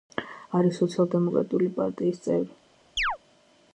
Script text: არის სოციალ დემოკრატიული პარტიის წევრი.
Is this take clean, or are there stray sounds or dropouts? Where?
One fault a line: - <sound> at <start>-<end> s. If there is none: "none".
- chirp at 3.0-3.2 s